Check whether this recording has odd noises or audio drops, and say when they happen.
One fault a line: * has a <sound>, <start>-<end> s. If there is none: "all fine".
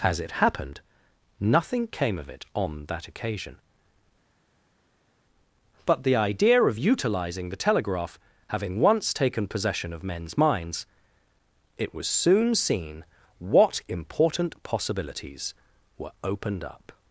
all fine